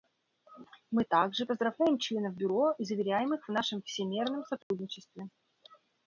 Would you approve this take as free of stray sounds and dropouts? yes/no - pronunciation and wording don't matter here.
no